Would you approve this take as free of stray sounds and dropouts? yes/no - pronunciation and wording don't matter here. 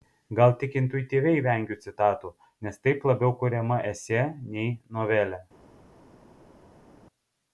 yes